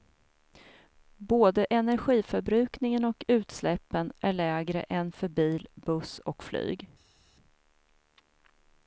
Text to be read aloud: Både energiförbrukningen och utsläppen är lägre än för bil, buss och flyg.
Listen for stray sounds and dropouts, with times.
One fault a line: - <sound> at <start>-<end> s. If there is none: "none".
none